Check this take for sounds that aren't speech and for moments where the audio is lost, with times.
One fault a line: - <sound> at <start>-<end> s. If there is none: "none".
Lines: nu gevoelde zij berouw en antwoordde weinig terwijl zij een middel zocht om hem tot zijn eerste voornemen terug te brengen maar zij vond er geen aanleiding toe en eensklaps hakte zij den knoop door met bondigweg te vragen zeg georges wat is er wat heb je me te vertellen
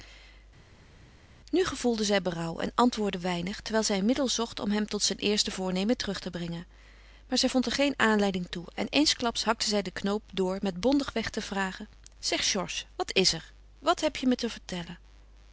none